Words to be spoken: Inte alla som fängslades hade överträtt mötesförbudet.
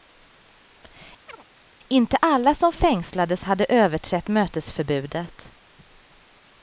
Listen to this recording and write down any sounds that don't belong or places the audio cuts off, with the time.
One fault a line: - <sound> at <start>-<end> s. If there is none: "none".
- chirp at 1.3-1.4 s